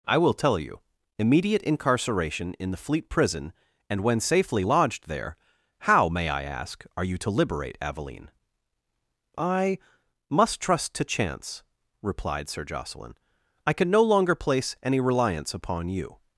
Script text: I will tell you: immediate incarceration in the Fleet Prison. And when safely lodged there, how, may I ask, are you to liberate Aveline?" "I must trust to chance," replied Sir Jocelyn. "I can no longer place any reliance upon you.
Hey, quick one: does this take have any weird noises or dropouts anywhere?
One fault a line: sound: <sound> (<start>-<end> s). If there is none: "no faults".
no faults